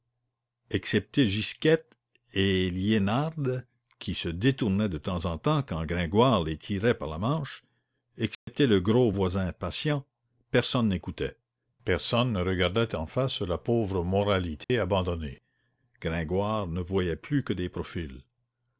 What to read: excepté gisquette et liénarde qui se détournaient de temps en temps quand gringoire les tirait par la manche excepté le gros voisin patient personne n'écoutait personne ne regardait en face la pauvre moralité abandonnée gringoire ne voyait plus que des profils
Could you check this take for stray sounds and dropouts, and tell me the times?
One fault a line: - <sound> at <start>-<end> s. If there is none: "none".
- dropout at 8.3-8.5 s
- dropout at 14.6-14.7 s